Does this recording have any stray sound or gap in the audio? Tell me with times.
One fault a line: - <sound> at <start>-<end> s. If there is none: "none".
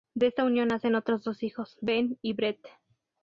none